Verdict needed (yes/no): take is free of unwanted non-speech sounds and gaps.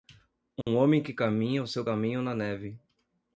no